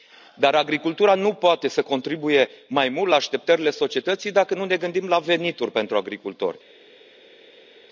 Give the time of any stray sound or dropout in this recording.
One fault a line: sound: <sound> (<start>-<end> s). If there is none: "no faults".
no faults